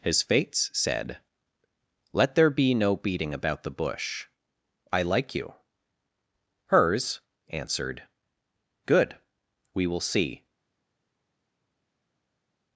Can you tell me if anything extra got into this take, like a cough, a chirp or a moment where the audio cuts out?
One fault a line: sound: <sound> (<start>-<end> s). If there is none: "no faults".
no faults